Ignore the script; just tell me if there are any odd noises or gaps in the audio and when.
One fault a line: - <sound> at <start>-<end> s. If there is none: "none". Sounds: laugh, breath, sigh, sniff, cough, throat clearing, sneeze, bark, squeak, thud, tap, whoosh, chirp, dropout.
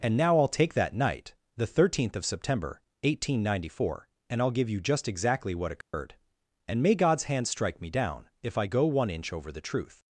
- dropout at 5.8-5.9 s